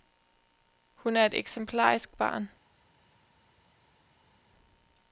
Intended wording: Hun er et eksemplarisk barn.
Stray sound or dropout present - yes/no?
no